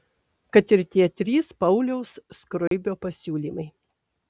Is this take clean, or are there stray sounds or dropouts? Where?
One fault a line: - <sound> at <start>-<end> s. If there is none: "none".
- dropout at 2.7-2.7 s